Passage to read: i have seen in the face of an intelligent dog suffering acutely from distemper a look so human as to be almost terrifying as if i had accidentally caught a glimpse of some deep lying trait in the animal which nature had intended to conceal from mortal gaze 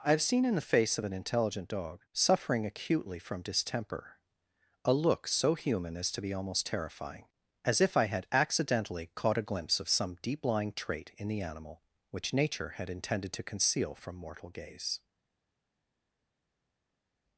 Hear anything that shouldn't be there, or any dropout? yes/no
no